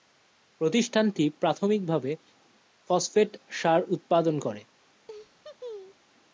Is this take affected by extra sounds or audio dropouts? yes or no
yes